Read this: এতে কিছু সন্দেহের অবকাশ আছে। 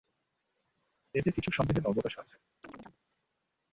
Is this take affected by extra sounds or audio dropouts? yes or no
yes